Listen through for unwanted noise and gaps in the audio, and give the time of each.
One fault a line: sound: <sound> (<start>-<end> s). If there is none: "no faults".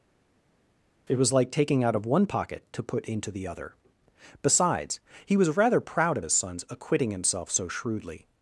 no faults